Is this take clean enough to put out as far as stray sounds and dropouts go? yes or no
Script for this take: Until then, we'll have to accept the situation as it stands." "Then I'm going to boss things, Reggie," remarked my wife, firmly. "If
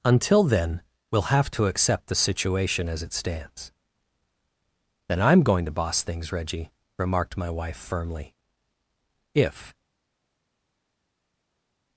yes